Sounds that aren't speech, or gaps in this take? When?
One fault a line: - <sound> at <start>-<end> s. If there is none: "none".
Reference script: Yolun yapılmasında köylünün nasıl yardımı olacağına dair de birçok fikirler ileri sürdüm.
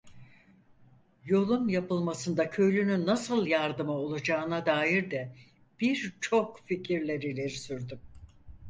none